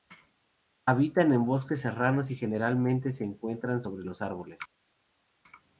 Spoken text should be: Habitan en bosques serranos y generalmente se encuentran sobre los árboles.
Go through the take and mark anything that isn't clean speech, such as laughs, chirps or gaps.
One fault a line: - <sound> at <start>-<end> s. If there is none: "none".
none